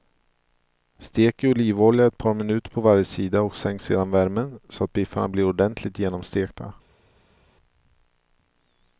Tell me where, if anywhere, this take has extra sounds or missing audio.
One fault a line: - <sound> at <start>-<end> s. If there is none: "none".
none